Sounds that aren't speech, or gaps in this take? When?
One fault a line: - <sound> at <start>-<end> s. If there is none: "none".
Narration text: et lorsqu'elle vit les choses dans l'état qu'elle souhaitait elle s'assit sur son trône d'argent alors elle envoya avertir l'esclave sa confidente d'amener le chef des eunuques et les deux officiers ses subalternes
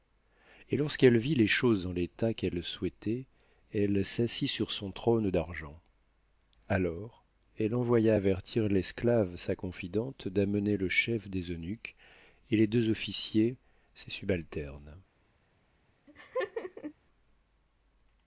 - laugh at 16.1-16.9 s